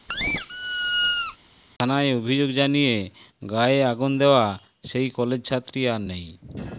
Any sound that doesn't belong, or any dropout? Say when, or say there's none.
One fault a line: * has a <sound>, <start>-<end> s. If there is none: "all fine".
* has a squeak, 0.1-1.4 s